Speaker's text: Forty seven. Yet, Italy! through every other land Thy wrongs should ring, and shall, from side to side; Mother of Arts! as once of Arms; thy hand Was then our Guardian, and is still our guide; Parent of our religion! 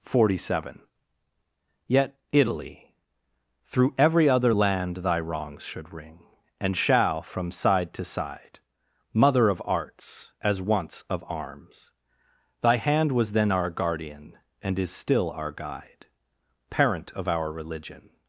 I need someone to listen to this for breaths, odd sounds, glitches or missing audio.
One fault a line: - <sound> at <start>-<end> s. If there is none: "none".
none